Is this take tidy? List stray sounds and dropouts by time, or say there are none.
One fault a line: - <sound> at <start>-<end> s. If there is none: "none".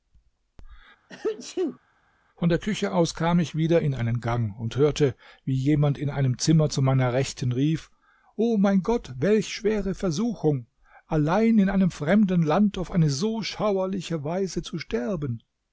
- sneeze at 1.1-1.8 s